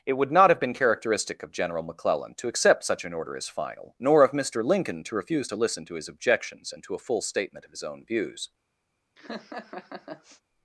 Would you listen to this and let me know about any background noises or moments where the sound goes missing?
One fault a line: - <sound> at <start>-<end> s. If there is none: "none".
- laugh at 9.2-10.4 s